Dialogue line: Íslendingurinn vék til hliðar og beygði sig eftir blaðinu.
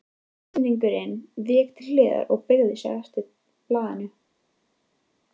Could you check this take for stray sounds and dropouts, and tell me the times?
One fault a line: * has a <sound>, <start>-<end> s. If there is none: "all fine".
all fine